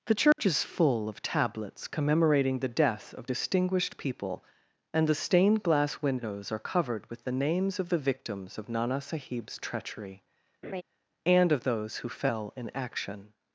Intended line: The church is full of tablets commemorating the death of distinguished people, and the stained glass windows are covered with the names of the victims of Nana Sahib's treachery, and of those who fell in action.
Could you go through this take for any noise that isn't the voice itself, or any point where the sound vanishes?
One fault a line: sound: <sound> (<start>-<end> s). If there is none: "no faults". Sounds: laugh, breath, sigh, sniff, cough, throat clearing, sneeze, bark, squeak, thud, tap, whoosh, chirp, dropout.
sound: dropout (0.3-0.4 s)
sound: laugh (10.6-10.8 s)